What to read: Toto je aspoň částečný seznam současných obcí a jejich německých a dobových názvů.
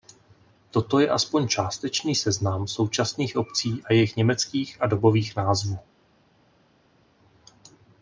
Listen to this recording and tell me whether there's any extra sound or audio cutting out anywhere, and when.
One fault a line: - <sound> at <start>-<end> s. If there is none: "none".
none